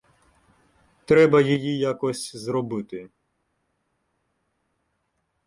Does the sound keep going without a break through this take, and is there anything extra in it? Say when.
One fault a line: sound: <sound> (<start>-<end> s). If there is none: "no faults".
no faults